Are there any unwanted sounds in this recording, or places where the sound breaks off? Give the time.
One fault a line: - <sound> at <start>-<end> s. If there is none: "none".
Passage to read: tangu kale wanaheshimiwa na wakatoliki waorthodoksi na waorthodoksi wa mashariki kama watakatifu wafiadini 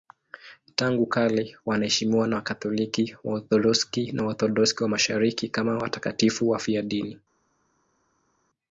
none